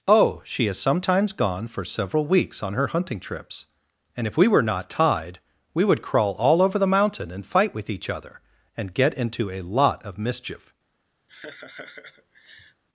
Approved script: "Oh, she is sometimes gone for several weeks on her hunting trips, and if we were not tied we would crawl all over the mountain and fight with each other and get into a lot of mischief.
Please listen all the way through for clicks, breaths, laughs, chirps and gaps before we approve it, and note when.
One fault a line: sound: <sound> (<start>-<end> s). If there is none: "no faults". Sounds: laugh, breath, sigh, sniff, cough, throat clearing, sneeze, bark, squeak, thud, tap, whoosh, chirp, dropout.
sound: laugh (11.3-12.8 s)